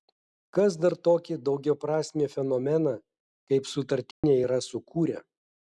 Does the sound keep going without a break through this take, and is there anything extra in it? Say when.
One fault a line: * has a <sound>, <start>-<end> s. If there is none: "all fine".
* has a dropout, 4.1-4.2 s